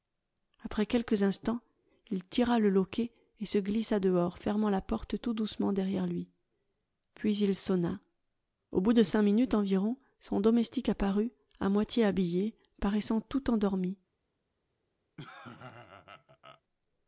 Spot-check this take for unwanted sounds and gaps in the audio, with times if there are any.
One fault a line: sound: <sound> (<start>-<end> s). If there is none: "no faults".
sound: laugh (15.2-16.6 s)